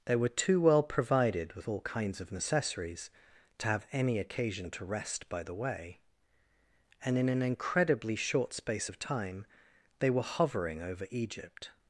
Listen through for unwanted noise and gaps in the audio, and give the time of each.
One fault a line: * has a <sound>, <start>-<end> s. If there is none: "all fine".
all fine